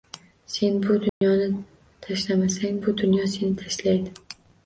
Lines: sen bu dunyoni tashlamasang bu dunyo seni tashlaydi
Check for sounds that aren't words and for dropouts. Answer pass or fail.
fail